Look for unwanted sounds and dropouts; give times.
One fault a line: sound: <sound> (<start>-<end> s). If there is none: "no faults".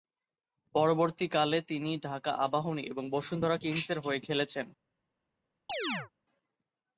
sound: chirp (5.7-6.1 s)